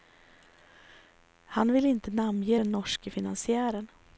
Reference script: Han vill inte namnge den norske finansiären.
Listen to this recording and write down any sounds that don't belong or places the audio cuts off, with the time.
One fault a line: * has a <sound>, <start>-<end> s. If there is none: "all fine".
all fine